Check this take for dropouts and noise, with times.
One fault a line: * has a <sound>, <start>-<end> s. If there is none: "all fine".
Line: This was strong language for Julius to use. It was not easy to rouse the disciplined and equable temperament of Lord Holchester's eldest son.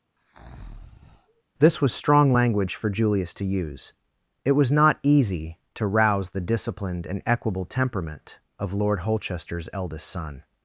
* has a breath, 0.2-1.4 s